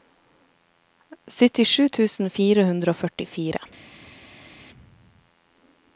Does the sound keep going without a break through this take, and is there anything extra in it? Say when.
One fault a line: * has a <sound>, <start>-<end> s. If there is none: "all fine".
all fine